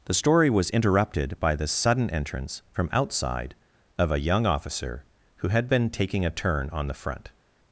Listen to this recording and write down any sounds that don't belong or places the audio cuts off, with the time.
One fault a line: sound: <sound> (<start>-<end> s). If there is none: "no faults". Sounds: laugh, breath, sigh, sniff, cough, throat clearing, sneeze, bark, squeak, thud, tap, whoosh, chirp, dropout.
no faults